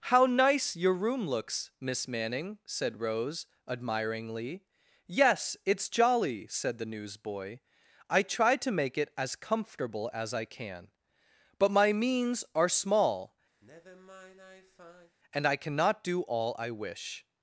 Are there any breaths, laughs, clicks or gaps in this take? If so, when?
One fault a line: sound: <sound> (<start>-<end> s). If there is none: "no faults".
sound: sigh (13.6-15.2 s)